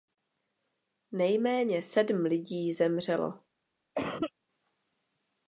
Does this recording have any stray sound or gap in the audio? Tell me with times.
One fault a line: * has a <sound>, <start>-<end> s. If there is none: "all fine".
* has a cough, 4.0-4.3 s